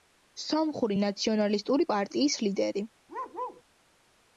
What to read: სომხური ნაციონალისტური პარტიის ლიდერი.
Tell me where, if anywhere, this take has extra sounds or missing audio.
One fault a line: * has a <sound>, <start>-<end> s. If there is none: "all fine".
* has a bark, 3.1-3.6 s